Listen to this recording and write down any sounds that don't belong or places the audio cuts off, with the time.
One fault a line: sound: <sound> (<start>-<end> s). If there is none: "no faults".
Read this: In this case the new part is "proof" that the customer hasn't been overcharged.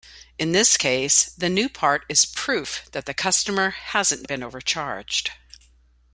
no faults